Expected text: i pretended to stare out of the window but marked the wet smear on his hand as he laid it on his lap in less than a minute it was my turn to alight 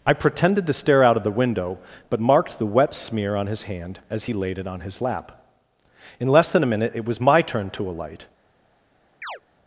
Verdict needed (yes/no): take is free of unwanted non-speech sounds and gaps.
no